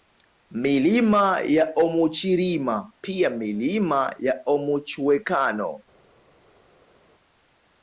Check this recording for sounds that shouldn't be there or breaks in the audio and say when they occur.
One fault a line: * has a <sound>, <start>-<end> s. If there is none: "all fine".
all fine